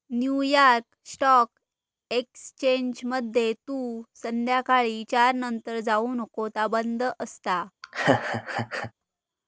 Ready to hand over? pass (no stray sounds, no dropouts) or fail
fail